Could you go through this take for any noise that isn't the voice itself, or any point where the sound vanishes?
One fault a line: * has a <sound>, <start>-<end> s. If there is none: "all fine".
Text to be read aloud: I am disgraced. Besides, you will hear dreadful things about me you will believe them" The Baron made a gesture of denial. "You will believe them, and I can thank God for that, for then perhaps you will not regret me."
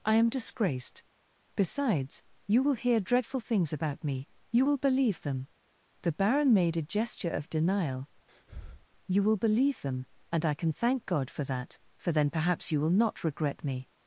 * has a breath, 8.3-8.9 s